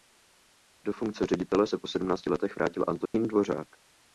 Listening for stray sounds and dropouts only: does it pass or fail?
fail